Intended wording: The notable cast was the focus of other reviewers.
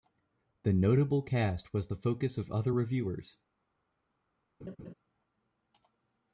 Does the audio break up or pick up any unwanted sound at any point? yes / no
yes